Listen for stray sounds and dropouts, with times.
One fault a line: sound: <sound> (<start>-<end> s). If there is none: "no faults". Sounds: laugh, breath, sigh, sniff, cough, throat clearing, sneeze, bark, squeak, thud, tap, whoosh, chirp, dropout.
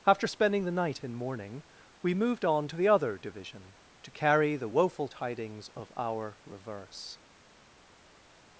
no faults